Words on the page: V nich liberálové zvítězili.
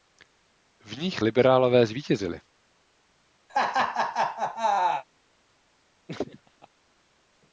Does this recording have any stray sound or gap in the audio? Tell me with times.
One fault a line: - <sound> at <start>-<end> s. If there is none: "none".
- laugh at 3.5-5.0 s
- laugh at 6.1-6.7 s